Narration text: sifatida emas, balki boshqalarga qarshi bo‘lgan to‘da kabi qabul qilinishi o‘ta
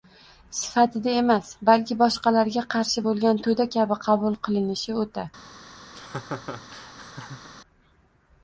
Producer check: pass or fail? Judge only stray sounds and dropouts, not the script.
fail